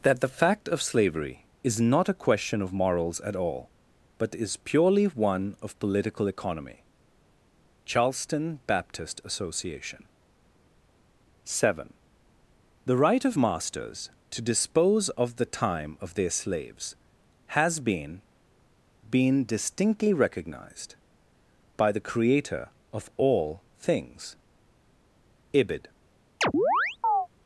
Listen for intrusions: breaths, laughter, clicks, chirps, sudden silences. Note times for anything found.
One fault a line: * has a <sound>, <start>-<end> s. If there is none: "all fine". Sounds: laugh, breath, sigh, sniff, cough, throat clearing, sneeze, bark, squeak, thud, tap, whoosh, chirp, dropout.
* has a chirp, 26.4-27.3 s